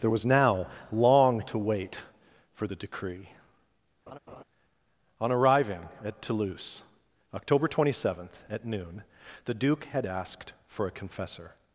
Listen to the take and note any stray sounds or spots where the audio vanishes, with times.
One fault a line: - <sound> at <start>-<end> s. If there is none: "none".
- laugh at 4.1-4.4 s